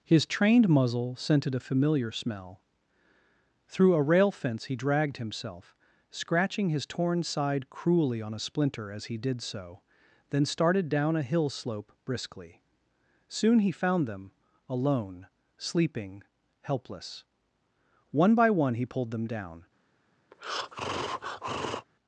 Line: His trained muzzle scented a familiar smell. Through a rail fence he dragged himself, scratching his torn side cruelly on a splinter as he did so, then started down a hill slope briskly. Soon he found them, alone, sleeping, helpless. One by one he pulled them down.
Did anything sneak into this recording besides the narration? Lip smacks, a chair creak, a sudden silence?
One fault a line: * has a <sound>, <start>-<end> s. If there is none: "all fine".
* has a breath, 20.3-21.9 s